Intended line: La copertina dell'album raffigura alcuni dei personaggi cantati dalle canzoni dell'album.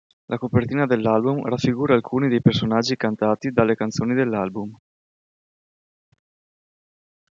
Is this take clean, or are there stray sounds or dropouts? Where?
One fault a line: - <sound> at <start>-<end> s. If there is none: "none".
none